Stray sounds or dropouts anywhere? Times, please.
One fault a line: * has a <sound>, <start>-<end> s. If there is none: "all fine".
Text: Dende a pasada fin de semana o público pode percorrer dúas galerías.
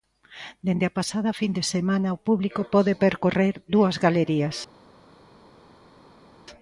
all fine